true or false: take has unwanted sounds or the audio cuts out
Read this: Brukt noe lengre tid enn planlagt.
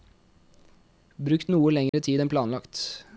true